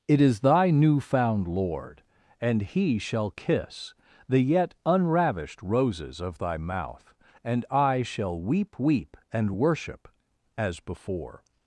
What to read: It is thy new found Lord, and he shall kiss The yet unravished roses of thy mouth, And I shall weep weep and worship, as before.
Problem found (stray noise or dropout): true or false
false